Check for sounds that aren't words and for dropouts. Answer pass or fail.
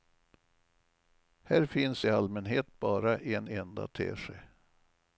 pass